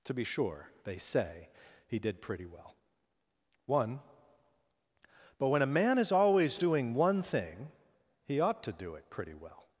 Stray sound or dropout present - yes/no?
no